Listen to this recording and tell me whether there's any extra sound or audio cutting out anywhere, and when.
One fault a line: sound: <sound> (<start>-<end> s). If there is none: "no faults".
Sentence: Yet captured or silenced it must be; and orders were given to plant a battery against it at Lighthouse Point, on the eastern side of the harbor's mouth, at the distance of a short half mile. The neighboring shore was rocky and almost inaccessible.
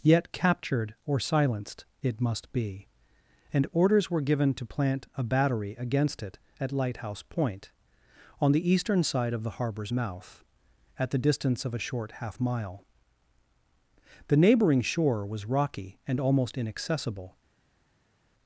no faults